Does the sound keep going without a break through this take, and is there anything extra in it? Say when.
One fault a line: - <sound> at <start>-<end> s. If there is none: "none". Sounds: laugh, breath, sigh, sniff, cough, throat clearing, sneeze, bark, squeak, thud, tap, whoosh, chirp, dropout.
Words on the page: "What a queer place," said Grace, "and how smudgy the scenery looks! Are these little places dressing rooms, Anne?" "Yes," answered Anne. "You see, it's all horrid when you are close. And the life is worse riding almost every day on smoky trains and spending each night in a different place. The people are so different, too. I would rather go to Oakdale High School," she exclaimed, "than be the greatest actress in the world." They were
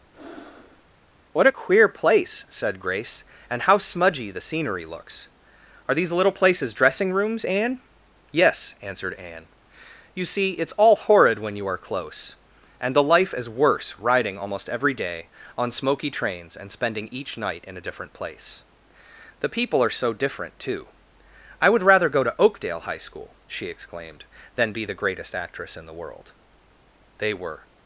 - breath at 0.1-0.8 s